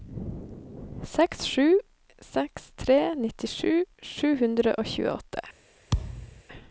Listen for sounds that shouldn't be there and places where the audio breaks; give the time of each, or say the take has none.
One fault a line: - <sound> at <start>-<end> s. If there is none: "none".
- thud at 5.9-6.4 s